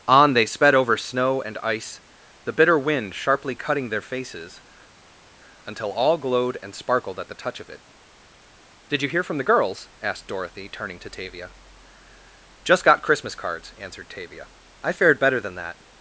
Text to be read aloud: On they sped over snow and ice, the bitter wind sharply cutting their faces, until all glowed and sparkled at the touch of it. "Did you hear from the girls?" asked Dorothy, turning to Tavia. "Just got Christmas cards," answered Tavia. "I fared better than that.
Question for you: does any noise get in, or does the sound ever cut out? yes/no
no